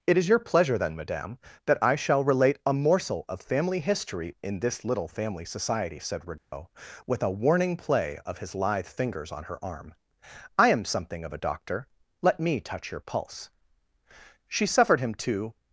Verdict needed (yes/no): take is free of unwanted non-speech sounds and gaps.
no